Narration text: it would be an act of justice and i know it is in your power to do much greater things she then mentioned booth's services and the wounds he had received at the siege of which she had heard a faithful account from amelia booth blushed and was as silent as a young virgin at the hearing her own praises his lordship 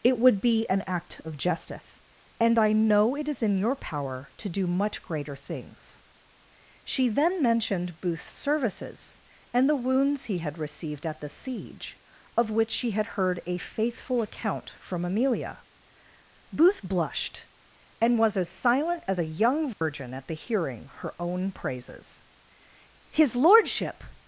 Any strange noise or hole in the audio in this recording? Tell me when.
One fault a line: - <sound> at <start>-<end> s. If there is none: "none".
- dropout at 19.7-19.8 s